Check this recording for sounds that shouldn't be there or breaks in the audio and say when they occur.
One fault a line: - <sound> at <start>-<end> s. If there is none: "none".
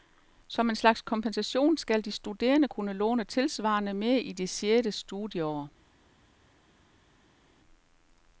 none